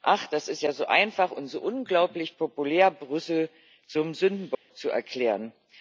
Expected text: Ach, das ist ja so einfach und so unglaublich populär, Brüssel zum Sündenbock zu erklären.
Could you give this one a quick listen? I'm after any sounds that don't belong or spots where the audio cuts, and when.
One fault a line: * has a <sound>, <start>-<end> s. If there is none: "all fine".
* has a dropout, 4.5-4.7 s